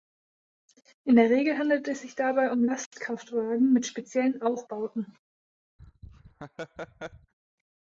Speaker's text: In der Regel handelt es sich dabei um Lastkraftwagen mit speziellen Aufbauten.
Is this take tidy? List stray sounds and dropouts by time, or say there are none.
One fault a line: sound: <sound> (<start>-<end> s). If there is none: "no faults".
sound: laugh (5.8-7.3 s)